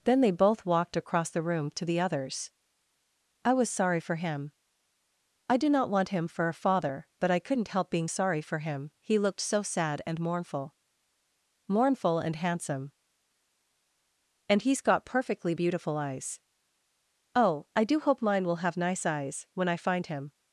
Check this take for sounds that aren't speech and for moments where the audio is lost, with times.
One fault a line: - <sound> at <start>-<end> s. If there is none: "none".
none